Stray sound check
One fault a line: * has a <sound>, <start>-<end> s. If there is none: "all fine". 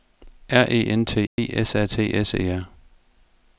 * has a dropout, 1.3-1.4 s